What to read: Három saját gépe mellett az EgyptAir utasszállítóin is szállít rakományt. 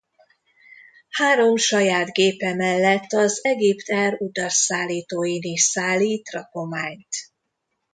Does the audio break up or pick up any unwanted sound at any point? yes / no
no